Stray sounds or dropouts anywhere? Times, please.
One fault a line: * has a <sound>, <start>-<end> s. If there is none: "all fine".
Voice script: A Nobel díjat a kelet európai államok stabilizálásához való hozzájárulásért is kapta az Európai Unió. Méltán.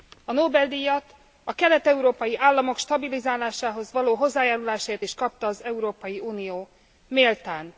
all fine